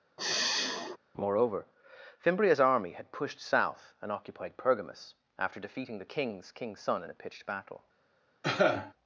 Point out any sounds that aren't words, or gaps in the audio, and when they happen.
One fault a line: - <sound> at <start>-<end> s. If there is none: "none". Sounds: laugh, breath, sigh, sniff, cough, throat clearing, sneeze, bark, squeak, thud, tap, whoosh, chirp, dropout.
- sigh at 0.2-1.0 s
- cough at 8.4-8.9 s